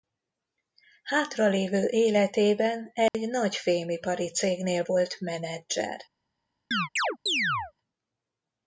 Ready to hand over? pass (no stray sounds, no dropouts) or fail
fail